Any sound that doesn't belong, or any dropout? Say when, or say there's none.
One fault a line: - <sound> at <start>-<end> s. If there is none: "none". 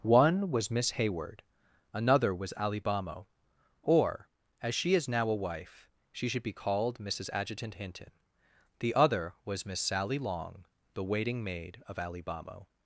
none